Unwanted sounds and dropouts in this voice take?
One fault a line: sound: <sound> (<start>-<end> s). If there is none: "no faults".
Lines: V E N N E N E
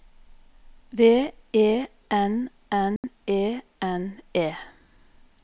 sound: dropout (3.0-3.0 s)